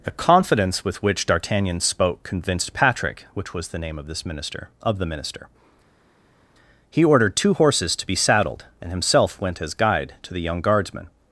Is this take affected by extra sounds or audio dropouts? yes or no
no